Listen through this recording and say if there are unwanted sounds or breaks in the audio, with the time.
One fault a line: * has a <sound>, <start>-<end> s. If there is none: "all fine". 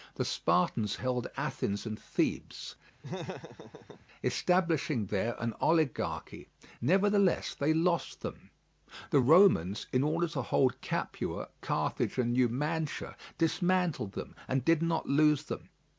* has a laugh, 3.0-4.1 s